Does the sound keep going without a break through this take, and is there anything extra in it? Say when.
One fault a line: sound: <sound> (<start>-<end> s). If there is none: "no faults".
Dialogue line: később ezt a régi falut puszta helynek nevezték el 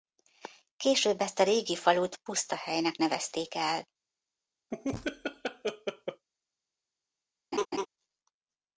sound: laugh (4.7-6.3 s)
sound: laugh (7.5-7.9 s)